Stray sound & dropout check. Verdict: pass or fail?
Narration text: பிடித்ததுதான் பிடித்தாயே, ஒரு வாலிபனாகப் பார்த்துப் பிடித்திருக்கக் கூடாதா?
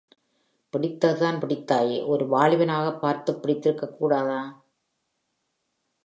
pass